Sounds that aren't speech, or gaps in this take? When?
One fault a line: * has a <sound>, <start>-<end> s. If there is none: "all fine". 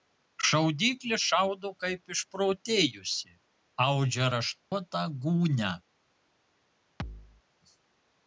* has a dropout, 4.6-4.7 s
* has a thud, 7.0-7.4 s